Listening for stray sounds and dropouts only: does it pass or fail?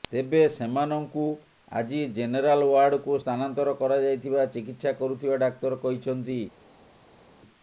pass